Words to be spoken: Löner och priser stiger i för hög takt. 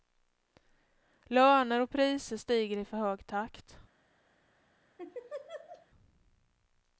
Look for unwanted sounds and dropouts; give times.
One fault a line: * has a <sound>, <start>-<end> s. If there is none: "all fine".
* has a laugh, 5.0-5.9 s